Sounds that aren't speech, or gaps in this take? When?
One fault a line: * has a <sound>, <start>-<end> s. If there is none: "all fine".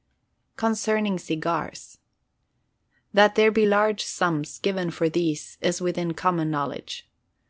all fine